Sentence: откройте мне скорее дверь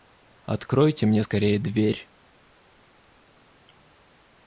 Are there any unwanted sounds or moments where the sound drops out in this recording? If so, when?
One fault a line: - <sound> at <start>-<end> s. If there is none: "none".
none